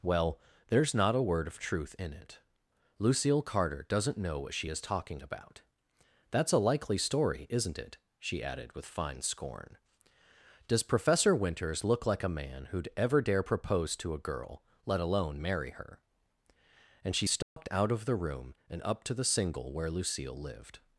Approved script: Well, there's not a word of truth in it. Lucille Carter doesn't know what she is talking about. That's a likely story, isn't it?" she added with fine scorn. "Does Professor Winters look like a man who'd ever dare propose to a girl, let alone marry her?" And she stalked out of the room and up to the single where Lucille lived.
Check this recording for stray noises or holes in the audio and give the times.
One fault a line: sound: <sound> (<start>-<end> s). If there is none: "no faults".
sound: dropout (17.4-17.6 s)